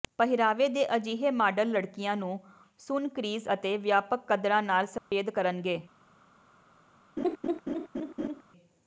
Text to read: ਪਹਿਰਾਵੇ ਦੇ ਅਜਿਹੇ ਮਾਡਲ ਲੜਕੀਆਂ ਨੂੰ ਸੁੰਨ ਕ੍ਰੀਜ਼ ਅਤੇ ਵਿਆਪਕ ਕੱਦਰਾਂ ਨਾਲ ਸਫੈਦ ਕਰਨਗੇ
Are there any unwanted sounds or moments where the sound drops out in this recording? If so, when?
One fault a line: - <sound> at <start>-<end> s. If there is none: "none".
- dropout at 5.0-5.1 s
- laugh at 7.2-8.4 s